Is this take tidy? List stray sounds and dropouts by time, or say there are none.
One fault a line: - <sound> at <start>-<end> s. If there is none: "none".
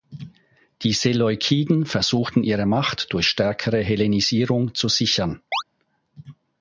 - chirp at 5.5-5.6 s